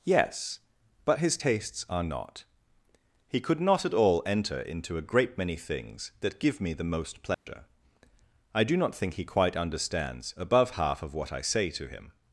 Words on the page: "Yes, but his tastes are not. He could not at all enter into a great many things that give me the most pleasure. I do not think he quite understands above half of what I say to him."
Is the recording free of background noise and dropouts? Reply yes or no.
no